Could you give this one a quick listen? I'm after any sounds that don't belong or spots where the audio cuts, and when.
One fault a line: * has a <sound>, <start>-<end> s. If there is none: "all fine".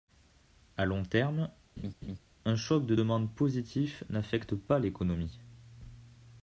* has a laugh, 1.8-2.2 s